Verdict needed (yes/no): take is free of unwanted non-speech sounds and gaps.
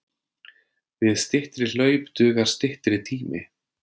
yes